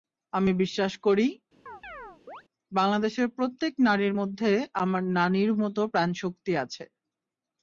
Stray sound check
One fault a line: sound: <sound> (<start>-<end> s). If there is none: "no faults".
sound: chirp (1.7-2.4 s)